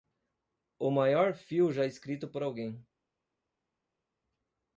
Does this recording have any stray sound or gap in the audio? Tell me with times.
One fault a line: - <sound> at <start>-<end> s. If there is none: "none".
none